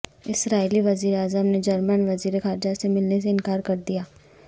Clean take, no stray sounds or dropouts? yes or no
yes